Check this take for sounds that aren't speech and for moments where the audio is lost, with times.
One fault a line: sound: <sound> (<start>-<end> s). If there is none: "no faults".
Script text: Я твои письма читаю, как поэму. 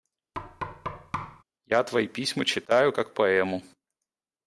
sound: thud (0.3-1.4 s)